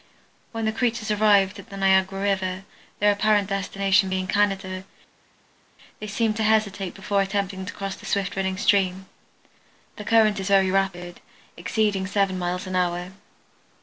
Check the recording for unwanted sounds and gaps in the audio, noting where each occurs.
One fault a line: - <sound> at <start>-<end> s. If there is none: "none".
none